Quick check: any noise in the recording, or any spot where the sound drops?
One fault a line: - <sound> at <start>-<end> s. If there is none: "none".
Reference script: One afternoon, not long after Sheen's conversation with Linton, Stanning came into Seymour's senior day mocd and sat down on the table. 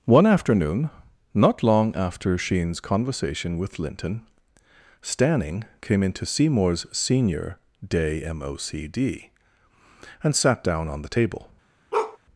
- bark at 11.9-12.2 s